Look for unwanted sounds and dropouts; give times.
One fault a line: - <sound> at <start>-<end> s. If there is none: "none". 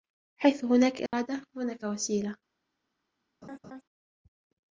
- dropout at 1.1-1.1 s
- laugh at 3.4-3.8 s